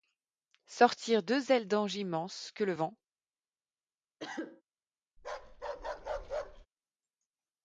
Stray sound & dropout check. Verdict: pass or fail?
fail